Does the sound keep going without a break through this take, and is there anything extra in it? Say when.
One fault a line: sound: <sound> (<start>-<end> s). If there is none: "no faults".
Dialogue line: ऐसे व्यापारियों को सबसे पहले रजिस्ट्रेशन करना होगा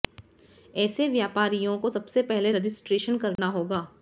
sound: dropout (3.4-3.4 s)